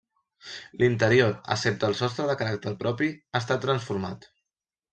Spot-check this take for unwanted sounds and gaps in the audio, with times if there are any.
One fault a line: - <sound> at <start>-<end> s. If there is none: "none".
none